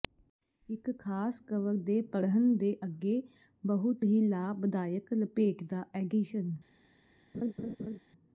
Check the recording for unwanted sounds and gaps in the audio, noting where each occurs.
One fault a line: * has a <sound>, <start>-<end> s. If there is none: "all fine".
* has a laugh, 7.3-8.0 s